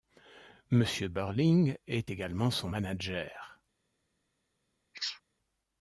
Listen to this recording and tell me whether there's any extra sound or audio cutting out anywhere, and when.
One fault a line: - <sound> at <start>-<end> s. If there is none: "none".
- sneeze at 4.9-5.2 s